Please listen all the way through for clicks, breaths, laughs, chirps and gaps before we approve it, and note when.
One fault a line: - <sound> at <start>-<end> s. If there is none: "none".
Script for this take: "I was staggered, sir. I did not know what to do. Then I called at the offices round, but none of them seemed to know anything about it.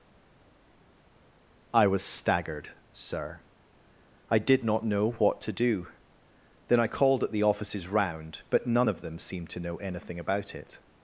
none